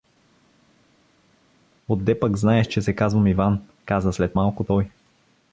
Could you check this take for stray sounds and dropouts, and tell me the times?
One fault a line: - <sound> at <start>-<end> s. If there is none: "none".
none